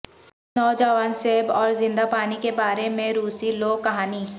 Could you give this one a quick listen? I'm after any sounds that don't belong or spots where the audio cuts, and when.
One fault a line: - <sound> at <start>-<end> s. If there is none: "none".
none